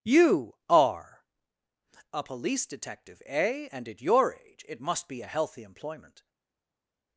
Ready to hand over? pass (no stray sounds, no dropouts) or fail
pass